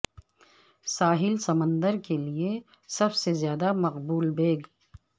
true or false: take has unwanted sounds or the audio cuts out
false